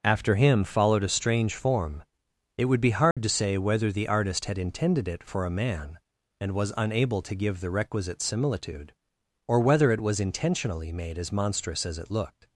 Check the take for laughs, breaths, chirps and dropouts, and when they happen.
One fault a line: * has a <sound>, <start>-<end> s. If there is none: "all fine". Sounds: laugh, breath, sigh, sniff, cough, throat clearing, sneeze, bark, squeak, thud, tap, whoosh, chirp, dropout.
* has a dropout, 3.1-3.2 s